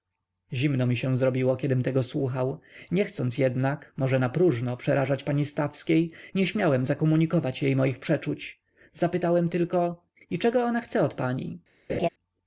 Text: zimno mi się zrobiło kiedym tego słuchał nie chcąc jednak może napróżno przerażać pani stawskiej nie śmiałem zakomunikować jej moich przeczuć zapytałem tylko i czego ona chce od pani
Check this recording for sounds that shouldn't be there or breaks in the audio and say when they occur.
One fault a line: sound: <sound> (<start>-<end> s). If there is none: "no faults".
sound: laugh (11.9-12.1 s)